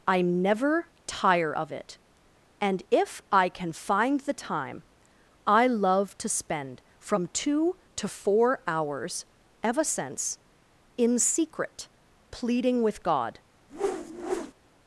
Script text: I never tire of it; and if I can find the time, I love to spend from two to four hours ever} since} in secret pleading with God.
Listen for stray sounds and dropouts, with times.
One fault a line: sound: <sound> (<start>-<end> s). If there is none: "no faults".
sound: whoosh (13.7-14.5 s)